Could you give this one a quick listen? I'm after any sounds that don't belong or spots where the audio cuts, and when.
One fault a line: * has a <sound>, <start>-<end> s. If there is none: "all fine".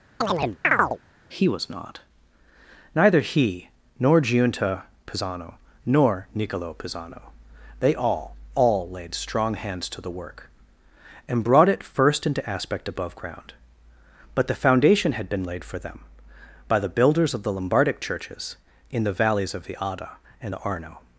* has a chirp, 0.2-1.0 s